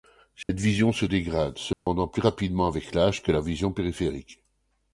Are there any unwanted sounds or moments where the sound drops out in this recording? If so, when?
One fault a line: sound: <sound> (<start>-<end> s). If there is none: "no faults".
sound: dropout (0.4-0.5 s)
sound: dropout (1.7-1.9 s)